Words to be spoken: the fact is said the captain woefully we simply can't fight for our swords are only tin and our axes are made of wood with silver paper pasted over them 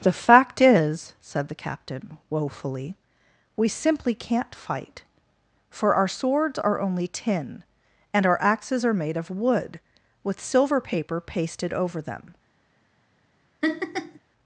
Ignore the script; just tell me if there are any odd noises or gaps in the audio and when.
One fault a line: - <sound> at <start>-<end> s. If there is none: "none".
- laugh at 13.6-14.2 s